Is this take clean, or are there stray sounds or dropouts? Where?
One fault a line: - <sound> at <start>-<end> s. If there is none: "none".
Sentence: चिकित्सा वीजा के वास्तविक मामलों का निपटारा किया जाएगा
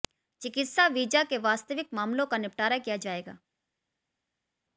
none